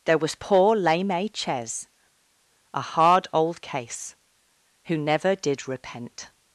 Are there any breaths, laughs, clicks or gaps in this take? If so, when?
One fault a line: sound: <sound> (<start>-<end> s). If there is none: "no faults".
no faults